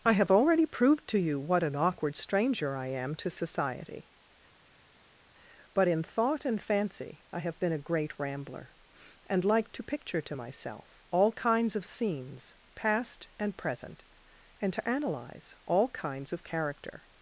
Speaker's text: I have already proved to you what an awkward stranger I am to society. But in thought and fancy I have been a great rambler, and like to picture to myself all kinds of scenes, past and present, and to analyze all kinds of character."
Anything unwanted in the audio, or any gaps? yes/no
no